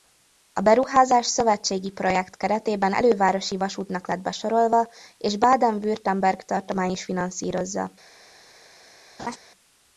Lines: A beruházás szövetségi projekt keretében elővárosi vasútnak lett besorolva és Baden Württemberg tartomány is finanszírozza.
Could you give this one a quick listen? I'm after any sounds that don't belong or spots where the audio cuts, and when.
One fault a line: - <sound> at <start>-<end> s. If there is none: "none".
- laugh at 9.2-9.4 s